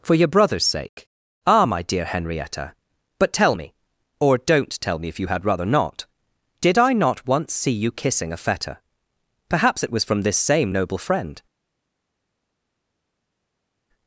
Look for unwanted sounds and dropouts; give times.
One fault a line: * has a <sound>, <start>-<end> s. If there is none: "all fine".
all fine